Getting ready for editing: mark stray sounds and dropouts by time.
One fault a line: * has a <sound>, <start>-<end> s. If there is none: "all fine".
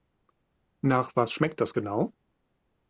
all fine